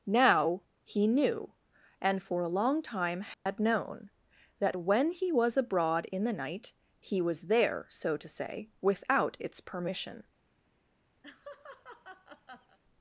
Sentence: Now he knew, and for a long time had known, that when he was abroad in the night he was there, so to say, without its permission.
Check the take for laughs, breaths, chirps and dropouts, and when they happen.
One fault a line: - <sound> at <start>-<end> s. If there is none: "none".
- dropout at 3.3-3.5 s
- laugh at 11.2-12.8 s